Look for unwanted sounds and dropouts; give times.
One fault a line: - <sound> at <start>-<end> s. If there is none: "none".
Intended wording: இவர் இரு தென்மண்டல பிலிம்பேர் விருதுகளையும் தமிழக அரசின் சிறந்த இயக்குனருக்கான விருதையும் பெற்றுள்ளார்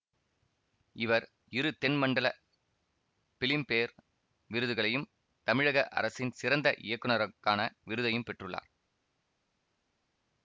none